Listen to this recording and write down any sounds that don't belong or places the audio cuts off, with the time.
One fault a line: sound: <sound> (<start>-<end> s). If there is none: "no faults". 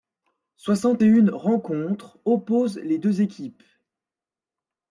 no faults